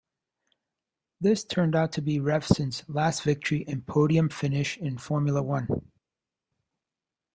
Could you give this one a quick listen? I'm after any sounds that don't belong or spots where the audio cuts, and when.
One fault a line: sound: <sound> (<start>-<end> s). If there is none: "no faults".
no faults